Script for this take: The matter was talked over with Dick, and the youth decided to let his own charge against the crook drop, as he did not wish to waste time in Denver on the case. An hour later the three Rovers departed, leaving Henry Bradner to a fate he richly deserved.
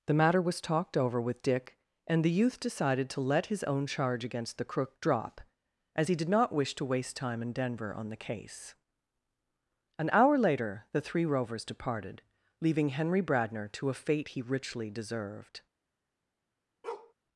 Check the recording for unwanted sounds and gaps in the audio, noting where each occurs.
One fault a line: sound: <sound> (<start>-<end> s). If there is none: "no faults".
sound: bark (16.8-17.1 s)